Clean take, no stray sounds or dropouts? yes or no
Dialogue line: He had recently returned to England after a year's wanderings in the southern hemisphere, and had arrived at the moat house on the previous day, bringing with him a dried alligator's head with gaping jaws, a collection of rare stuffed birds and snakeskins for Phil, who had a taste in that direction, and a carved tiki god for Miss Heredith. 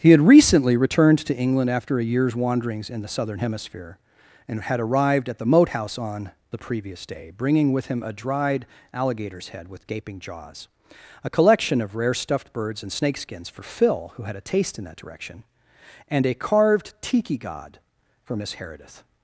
yes